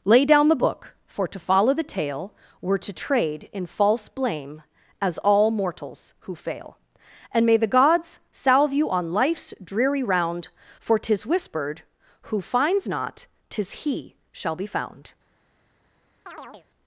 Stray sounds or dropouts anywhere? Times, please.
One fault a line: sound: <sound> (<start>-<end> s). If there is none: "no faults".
sound: chirp (16.3-16.7 s)